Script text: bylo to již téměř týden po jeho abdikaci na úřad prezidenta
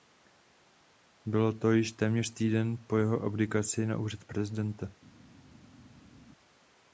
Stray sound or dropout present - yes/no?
no